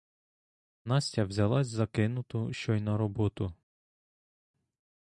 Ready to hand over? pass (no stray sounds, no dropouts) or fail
pass